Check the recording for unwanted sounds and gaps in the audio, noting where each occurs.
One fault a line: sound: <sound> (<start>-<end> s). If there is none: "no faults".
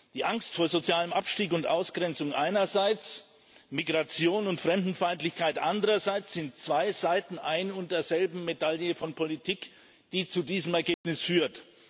sound: dropout (10.9-11.0 s)